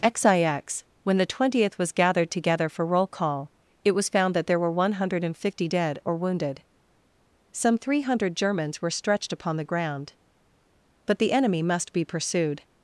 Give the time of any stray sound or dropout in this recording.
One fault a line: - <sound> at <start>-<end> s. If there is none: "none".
none